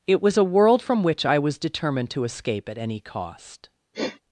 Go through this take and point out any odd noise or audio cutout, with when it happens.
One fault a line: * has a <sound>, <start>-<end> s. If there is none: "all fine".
* has a sniff, 3.9-4.2 s